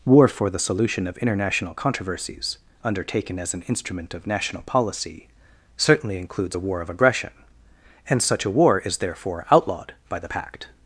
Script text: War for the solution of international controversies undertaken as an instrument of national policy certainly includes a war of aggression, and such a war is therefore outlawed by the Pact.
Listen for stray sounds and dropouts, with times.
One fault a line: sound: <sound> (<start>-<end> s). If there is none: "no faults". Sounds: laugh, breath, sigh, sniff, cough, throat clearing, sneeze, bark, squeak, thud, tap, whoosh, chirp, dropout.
no faults